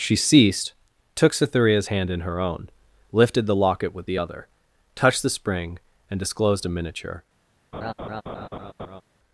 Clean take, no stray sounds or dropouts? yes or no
no